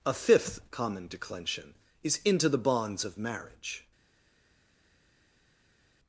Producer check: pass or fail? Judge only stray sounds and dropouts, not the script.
pass